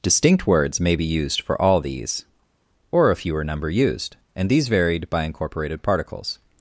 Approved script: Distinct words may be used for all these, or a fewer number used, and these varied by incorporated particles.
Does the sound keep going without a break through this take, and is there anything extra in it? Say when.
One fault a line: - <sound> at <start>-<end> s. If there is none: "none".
none